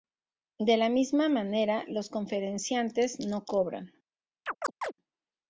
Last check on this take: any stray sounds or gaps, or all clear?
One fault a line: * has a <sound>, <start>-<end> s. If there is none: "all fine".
* has a chirp, 4.5-4.9 s